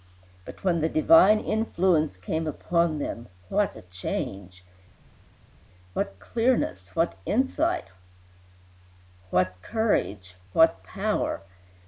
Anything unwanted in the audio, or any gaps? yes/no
no